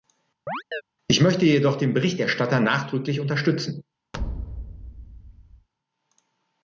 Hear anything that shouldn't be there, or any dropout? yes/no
yes